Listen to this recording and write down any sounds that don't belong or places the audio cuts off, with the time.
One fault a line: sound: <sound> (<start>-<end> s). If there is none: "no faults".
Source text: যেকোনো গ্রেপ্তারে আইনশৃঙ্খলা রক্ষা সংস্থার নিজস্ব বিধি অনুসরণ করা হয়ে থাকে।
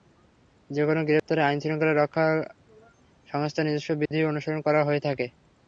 sound: dropout (1.2-1.3 s)
sound: dropout (4.1-4.1 s)